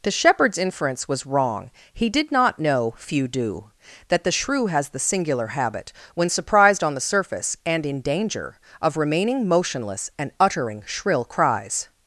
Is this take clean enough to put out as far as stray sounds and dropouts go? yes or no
yes